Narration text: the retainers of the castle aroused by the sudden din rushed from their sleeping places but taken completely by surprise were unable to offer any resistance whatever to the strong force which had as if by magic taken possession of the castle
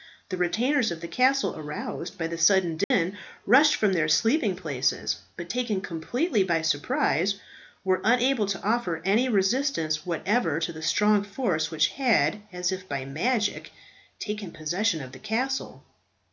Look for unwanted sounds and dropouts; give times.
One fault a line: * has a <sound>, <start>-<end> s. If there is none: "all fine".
* has a dropout, 2.8-2.9 s